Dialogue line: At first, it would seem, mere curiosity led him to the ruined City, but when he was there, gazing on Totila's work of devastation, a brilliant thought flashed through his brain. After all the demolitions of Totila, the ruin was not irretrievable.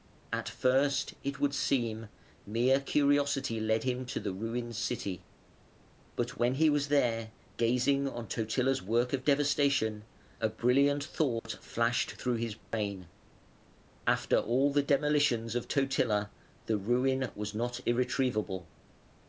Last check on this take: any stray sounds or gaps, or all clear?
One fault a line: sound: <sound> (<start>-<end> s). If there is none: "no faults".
sound: dropout (11.4-11.5 s)
sound: dropout (12.6-12.7 s)